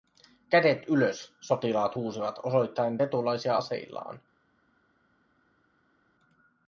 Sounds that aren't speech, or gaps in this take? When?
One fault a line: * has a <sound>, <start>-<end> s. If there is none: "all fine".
all fine